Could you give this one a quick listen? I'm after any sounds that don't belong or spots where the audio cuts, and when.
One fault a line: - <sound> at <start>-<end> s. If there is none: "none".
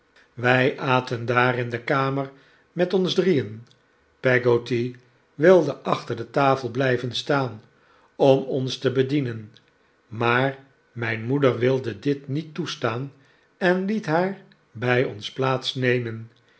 none